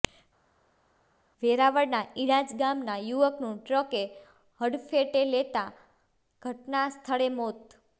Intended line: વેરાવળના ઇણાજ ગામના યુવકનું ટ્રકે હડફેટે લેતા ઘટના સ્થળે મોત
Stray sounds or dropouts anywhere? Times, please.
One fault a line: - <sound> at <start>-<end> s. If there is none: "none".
none